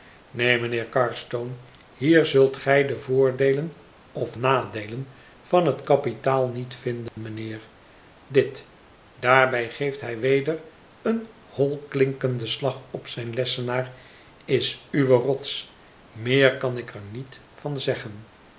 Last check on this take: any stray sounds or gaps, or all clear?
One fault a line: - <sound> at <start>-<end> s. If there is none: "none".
- dropout at 7.1-7.2 s